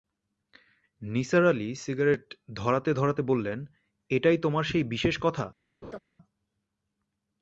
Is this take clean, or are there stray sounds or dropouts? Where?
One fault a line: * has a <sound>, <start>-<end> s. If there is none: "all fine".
* has a laugh, 5.8-6.0 s